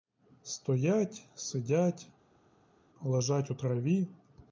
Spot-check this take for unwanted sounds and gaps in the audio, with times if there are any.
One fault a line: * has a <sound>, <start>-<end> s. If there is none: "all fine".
all fine